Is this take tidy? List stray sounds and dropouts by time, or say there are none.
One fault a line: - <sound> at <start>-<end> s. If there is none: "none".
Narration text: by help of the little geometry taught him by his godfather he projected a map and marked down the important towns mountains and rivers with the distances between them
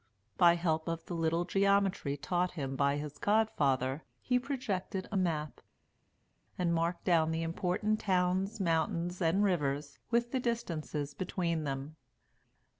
none